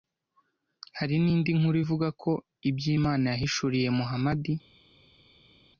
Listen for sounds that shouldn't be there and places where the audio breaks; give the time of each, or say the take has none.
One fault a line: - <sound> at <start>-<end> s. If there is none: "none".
none